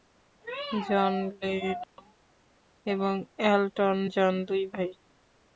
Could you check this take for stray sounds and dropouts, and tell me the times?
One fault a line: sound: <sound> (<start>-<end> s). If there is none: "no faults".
sound: dropout (1.8-2.0 s)